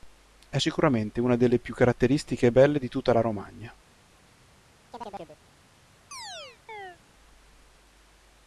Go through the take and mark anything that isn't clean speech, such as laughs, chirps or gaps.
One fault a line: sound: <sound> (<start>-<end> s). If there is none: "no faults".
sound: chirp (4.9-5.4 s)
sound: chirp (6.1-7.0 s)